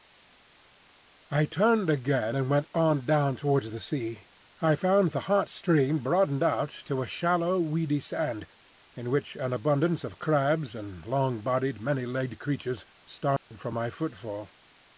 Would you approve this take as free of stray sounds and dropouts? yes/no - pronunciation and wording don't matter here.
no